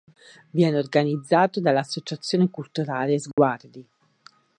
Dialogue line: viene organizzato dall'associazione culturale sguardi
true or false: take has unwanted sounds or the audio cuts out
true